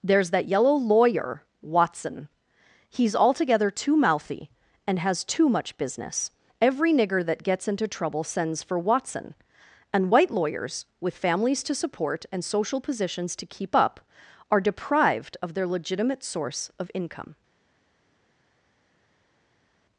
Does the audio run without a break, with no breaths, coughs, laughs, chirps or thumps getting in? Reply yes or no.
yes